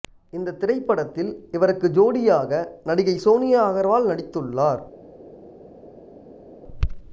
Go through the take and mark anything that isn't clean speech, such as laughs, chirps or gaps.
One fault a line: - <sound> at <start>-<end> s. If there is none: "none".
none